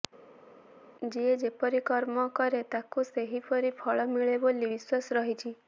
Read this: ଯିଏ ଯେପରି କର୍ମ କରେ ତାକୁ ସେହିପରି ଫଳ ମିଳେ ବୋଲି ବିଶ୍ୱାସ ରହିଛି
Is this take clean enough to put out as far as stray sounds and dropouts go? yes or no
yes